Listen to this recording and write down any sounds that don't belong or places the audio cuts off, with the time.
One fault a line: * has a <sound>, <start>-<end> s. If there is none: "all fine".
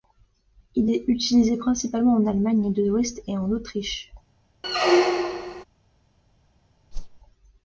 * has a squeak, 4.6-5.6 s
* has a whoosh, 6.9-7.2 s